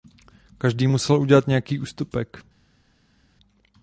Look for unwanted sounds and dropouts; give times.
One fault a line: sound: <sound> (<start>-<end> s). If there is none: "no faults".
no faults